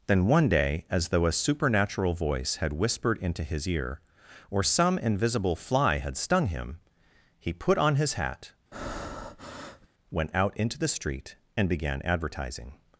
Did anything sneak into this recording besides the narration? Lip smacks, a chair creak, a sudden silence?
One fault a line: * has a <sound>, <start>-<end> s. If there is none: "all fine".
* has a breath, 8.7-9.9 s